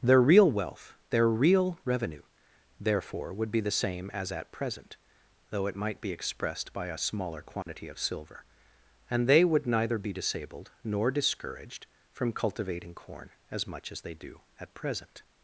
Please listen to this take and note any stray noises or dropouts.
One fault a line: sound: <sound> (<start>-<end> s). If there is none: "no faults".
sound: dropout (7.6-7.7 s)